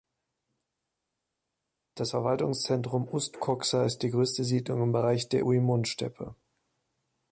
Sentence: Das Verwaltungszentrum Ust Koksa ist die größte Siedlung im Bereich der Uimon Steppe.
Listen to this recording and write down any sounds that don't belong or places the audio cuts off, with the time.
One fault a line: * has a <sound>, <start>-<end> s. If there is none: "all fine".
all fine